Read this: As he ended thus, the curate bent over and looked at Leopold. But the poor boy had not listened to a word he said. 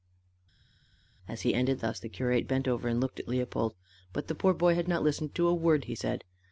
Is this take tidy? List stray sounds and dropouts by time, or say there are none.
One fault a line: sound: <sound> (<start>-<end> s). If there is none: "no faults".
no faults